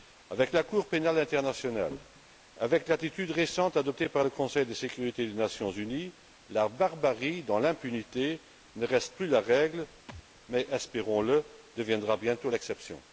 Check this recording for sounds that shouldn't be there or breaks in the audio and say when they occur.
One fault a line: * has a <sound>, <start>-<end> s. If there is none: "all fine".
* has a thud, 10.1-10.2 s